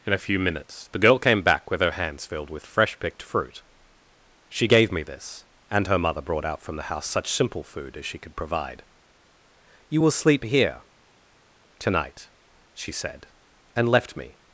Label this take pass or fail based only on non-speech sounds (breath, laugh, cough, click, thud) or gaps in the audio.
pass